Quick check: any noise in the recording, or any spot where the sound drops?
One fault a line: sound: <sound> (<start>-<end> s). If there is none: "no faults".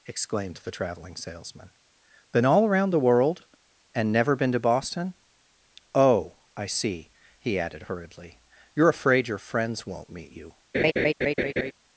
sound: laugh (10.7-11.7 s)